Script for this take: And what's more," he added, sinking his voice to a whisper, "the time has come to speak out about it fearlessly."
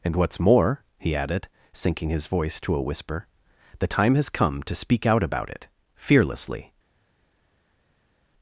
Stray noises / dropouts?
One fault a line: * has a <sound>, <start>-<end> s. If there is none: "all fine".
all fine